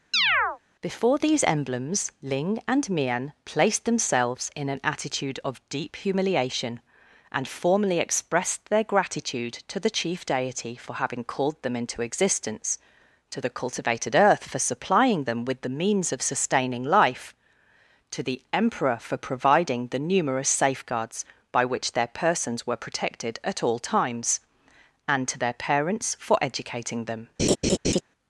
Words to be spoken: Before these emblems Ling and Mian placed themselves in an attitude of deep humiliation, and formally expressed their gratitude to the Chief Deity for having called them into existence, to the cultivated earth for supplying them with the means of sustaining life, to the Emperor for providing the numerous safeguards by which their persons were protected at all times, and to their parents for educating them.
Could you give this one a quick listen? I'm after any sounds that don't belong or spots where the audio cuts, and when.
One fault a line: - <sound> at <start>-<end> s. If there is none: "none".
- chirp at 0.1-0.6 s
- laugh at 27.4-28.0 s